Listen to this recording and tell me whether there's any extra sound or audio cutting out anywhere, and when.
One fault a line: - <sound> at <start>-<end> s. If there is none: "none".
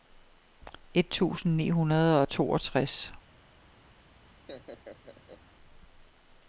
- laugh at 4.4-5.4 s